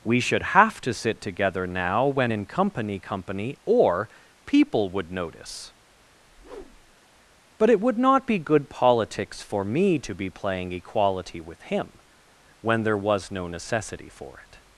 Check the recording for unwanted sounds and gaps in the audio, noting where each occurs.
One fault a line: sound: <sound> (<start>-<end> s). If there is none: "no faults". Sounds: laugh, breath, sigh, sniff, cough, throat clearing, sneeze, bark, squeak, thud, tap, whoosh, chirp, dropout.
sound: whoosh (6.2-7.0 s)